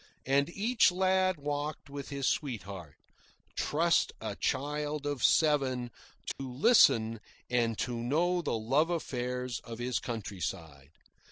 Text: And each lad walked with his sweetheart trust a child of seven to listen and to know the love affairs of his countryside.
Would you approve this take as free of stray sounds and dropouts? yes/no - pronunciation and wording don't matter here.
no